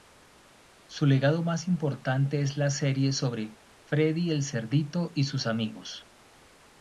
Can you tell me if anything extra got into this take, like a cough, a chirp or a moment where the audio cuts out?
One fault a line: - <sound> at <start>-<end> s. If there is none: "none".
none